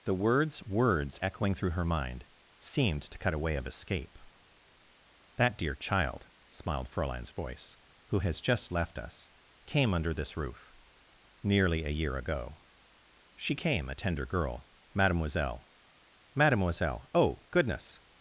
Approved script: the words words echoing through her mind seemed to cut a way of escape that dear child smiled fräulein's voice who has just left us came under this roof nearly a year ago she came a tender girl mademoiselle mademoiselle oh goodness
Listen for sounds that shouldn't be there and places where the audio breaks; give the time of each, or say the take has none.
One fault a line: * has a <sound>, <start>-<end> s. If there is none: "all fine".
all fine